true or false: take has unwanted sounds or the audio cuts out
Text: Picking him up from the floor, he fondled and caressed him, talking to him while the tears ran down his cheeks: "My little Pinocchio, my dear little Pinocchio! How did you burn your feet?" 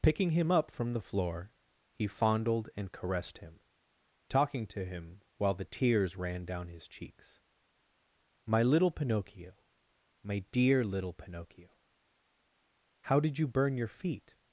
false